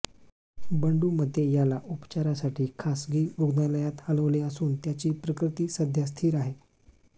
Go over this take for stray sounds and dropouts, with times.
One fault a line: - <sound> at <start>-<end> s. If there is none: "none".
none